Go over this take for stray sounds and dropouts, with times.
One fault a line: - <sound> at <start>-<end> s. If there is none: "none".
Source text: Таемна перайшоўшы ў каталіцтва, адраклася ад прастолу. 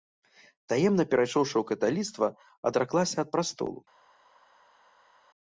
none